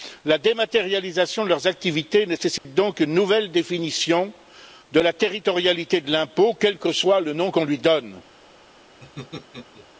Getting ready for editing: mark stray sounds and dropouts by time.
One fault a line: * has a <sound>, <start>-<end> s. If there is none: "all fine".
* has a dropout, 2.6-2.7 s
* has a laugh, 9.0-9.9 s